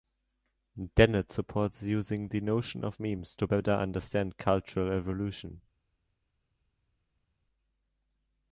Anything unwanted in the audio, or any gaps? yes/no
no